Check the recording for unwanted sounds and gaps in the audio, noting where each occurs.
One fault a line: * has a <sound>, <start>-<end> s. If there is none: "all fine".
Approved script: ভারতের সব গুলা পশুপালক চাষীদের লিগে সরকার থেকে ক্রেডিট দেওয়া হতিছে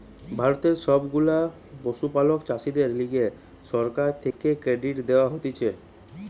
* has a dropout, 4.3-4.4 s